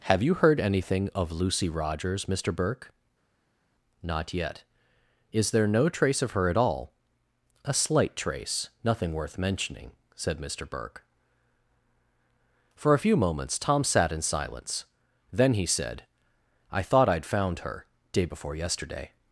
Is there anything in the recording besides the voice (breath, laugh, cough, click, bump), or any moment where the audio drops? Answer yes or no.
no